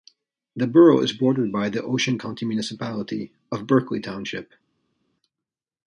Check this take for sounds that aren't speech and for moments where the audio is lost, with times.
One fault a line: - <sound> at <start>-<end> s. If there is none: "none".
none